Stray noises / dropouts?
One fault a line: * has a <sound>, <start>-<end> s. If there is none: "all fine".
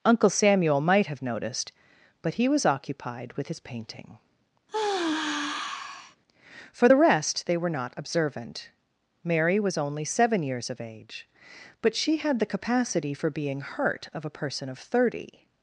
* has a sigh, 4.7-6.2 s